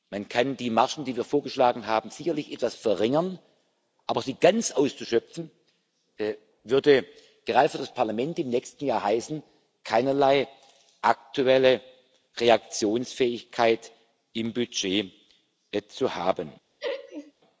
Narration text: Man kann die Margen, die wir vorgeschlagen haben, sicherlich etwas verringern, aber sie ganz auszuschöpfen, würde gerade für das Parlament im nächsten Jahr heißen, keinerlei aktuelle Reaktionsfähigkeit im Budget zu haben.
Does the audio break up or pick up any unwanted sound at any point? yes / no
yes